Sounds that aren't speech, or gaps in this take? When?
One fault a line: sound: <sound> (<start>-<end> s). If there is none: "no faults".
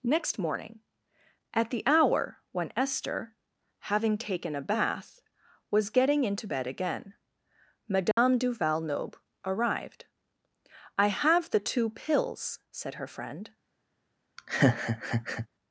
sound: dropout (8.1-8.2 s)
sound: laugh (14.4-15.5 s)